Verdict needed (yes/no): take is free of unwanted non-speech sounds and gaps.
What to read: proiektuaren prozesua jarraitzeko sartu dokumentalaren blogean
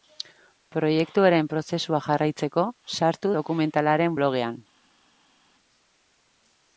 yes